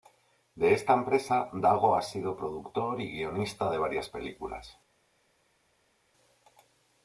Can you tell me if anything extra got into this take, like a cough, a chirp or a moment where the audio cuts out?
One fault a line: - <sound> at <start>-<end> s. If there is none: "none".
none